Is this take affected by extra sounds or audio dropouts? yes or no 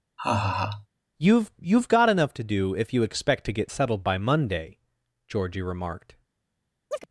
yes